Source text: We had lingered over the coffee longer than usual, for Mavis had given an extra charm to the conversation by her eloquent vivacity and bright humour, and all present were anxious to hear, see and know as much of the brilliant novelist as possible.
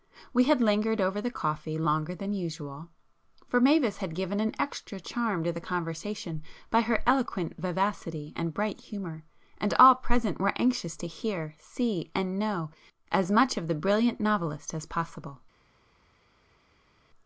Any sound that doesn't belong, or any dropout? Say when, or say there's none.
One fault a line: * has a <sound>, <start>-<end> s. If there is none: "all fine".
all fine